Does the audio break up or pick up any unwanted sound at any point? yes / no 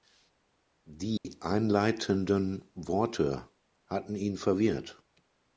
yes